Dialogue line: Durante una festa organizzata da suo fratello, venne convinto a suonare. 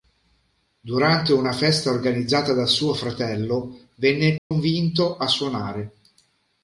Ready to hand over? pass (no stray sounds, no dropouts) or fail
fail